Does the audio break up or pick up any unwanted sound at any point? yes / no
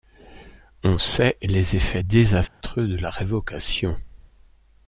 yes